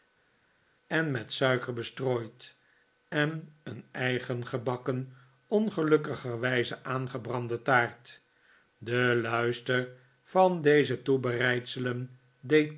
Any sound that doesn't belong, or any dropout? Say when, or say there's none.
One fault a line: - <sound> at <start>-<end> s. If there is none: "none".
none